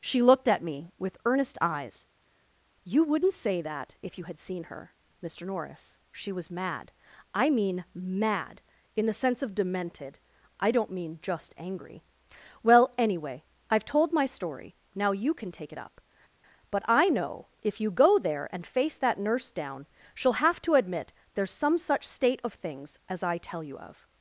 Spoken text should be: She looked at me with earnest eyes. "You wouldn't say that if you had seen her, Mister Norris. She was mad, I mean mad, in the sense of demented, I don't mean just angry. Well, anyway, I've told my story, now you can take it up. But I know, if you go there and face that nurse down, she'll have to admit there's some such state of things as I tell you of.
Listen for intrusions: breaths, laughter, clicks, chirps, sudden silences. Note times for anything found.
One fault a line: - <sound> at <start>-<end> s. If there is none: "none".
none